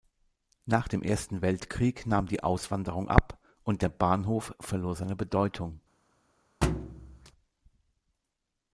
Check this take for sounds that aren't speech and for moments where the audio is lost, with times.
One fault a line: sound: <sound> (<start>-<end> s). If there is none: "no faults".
sound: thud (6.6-7.3 s)